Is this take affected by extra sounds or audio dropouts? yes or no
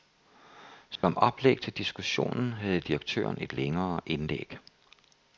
yes